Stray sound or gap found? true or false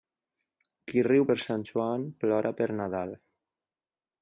false